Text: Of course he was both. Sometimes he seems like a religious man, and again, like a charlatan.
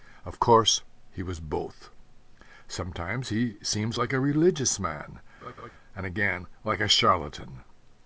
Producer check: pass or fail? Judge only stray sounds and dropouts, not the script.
fail